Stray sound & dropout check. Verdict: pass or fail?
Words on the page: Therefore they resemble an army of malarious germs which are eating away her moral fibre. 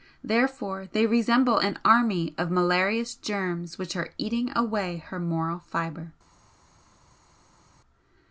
pass